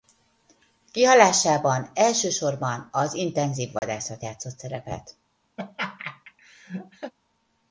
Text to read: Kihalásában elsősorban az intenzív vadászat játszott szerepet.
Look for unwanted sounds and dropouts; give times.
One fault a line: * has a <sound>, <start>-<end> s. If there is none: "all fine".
* has a dropout, 3.8-3.8 s
* has a laugh, 5.6-7.1 s